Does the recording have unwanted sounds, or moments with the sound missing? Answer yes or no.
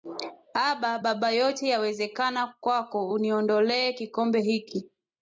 no